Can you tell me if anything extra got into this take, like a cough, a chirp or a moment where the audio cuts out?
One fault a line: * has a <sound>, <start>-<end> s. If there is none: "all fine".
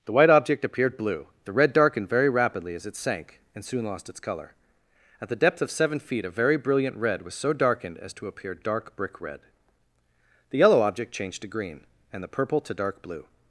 all fine